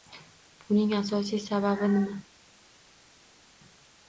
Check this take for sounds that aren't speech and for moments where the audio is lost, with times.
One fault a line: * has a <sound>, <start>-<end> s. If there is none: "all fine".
all fine